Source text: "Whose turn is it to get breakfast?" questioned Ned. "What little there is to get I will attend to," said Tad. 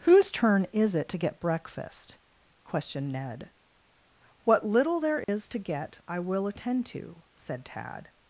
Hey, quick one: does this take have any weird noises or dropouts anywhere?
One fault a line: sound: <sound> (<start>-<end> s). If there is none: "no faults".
sound: dropout (5.2-5.3 s)